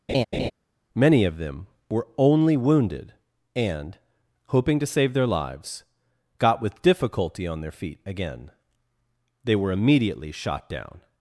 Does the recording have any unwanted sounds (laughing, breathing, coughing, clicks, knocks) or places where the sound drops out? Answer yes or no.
yes